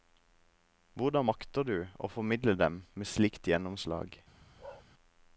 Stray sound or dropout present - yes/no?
yes